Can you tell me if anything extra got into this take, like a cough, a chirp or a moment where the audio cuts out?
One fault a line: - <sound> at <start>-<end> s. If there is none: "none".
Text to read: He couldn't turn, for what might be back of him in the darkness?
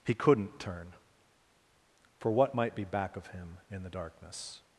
none